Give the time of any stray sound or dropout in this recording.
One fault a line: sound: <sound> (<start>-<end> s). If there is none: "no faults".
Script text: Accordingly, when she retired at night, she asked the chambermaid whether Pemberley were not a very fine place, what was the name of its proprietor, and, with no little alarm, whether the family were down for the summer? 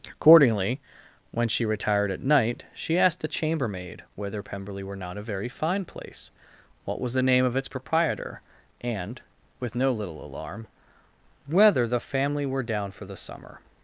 no faults